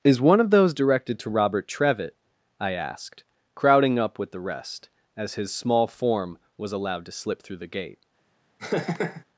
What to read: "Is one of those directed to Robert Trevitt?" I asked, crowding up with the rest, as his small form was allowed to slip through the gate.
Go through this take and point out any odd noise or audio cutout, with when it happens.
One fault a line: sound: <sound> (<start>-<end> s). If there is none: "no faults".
sound: laugh (8.6-9.2 s)